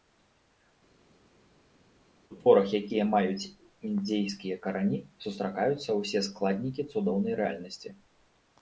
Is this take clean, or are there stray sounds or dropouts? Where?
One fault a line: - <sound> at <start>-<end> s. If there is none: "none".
none